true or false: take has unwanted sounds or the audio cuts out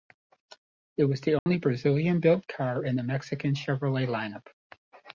true